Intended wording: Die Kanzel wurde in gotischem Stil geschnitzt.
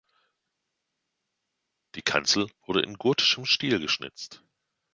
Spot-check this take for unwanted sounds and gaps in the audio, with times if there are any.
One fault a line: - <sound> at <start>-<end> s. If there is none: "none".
none